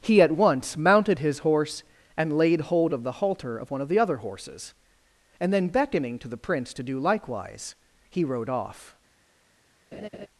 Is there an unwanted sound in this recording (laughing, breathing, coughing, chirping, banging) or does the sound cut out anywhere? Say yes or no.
yes